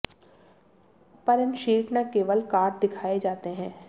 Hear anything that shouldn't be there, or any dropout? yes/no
no